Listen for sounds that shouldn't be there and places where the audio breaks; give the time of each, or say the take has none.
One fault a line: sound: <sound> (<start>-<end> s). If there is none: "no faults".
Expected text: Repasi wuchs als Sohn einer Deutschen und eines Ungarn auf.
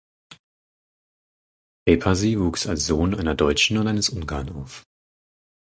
no faults